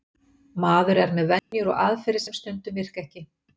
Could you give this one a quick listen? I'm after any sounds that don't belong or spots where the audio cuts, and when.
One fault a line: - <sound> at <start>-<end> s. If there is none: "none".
- dropout at 1.4-1.5 s